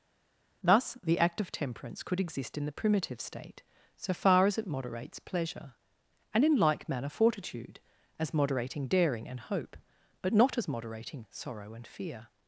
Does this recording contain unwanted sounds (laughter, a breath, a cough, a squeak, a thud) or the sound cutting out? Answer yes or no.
no